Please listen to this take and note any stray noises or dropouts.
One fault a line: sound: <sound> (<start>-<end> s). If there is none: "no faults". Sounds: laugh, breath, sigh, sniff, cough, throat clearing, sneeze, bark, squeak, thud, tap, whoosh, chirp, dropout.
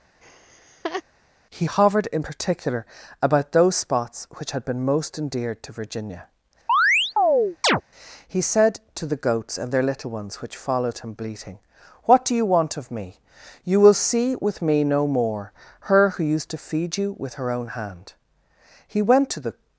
sound: laugh (0.2-1.0 s)
sound: chirp (6.7-7.8 s)